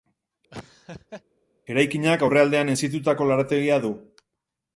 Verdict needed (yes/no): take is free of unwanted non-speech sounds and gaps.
no